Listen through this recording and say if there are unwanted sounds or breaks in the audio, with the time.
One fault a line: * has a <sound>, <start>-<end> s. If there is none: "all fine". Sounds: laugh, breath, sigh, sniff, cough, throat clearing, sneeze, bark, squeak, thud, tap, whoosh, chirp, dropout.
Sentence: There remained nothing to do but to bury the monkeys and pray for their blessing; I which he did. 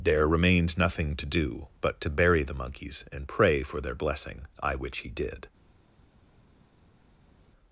all fine